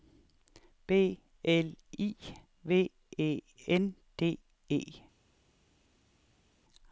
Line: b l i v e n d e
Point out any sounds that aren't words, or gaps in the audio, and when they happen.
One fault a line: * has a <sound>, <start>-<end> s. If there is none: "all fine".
all fine